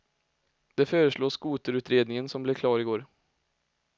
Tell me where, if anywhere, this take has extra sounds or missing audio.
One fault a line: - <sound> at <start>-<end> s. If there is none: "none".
none